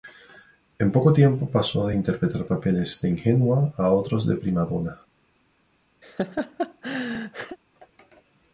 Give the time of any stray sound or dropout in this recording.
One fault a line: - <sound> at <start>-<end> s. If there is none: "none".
- laugh at 6.0-7.6 s